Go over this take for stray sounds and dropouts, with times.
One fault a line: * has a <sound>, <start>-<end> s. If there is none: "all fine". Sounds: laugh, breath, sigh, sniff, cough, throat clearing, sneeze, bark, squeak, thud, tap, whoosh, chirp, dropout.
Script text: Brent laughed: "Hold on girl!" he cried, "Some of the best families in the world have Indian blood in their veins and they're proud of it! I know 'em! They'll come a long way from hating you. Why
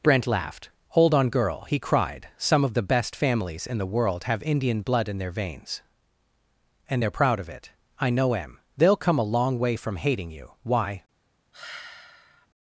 * has a sigh, 11.5-12.5 s